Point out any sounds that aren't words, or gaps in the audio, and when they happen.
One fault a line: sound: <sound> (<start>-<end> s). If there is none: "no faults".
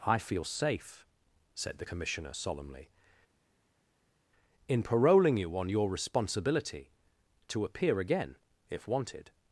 no faults